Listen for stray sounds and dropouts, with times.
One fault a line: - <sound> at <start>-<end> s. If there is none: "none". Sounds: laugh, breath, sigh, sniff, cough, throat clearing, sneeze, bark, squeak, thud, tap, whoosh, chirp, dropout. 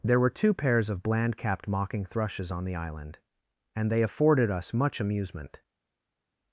none